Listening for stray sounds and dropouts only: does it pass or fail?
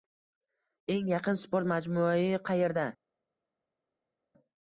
pass